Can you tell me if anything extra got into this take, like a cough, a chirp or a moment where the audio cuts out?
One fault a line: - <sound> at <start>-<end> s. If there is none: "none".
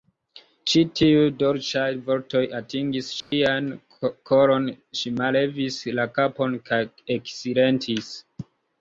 - dropout at 3.2-3.3 s